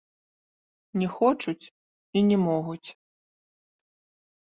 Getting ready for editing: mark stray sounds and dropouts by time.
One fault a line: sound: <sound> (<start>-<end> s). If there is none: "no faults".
no faults